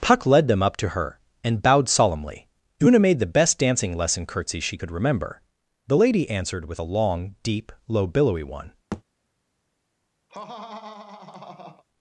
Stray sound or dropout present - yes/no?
yes